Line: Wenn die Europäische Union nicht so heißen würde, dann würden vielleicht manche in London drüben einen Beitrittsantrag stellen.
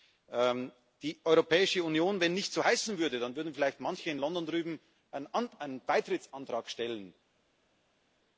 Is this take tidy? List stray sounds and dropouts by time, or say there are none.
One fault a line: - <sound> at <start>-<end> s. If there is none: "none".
none